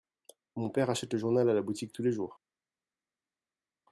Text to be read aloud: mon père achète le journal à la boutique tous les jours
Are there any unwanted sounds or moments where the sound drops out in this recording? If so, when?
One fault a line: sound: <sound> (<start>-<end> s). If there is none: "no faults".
no faults